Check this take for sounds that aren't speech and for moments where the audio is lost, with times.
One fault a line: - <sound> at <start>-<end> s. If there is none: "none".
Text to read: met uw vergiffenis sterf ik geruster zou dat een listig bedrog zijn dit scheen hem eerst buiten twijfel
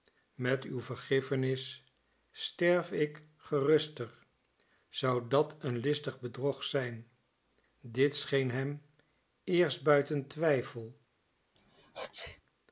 - sneeze at 11.6-12.4 s